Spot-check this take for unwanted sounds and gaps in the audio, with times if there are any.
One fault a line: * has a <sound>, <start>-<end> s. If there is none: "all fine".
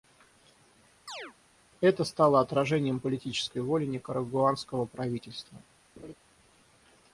* has a chirp, 1.1-1.3 s
* has a laugh, 6.0-6.1 s